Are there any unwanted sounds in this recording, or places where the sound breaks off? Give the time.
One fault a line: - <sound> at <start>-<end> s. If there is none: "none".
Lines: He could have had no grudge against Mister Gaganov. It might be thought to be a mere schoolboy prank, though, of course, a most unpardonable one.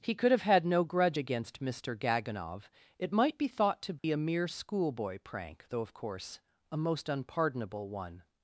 - dropout at 4.0-4.0 s